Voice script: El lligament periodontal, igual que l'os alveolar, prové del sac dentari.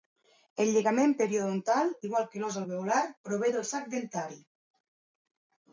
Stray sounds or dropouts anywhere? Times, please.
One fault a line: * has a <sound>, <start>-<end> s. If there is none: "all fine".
all fine